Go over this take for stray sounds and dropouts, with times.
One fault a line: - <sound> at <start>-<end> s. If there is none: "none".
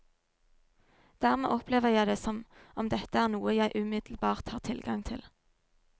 none